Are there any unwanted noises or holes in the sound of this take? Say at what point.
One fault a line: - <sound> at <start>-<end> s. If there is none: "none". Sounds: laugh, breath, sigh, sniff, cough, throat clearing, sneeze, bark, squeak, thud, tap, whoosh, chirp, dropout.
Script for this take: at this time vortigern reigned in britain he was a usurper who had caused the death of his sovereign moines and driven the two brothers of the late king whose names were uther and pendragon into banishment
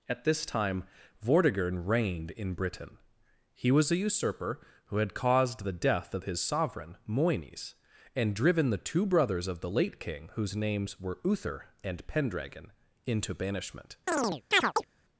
- chirp at 14.1-14.9 s